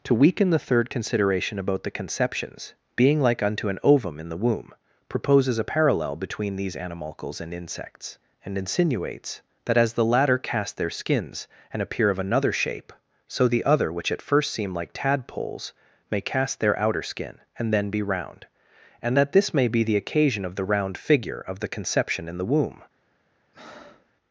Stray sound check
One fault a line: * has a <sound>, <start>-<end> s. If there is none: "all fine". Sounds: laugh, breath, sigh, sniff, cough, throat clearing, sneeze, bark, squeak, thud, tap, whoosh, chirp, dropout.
* has a breath, 23.5-24.1 s